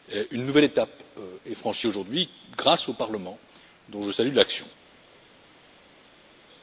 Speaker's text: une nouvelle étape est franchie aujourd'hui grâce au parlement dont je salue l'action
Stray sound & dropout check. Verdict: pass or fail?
pass